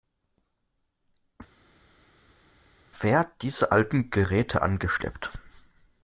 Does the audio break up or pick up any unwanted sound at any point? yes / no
no